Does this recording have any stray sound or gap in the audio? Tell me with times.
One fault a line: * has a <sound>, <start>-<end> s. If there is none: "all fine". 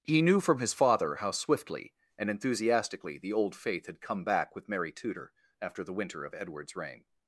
all fine